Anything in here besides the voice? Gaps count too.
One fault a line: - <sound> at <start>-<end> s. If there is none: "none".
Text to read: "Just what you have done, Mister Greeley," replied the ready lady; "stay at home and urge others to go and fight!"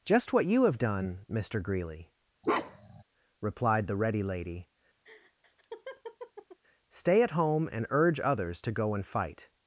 - bark at 2.4-3.0 s
- laugh at 5.0-6.6 s